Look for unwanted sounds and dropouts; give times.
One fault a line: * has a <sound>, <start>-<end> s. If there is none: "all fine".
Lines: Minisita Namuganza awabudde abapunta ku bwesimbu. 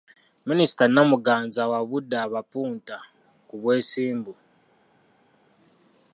all fine